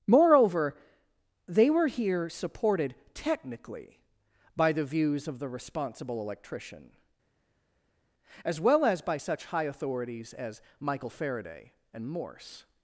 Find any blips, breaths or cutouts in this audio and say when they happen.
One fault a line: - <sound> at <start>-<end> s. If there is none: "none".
none